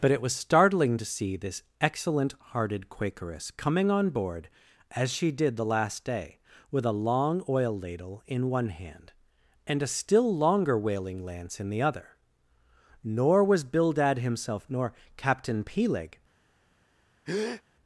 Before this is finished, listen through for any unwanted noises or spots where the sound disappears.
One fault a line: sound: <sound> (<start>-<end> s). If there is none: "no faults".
sound: breath (17.3-17.6 s)